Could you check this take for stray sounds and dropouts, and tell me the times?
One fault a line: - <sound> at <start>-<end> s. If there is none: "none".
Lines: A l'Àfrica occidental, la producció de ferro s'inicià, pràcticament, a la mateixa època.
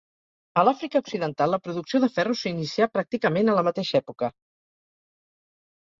none